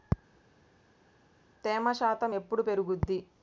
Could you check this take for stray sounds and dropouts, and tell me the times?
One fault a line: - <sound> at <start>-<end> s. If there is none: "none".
none